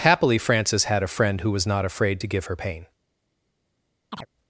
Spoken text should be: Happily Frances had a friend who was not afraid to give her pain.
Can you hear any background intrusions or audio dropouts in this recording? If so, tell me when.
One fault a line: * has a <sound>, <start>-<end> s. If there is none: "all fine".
* has a chirp, 4.1-4.3 s